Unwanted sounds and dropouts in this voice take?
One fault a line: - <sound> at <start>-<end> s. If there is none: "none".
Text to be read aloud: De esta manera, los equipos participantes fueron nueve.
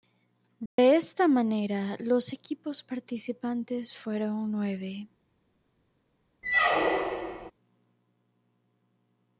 - dropout at 0.7-0.8 s
- squeak at 6.4-7.5 s